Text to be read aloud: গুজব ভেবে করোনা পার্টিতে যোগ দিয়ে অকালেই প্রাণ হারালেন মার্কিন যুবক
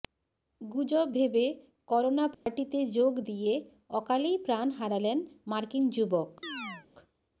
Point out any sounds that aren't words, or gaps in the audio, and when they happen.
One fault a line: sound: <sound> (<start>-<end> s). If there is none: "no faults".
sound: dropout (2.3-2.5 s)
sound: chirp (6.4-6.9 s)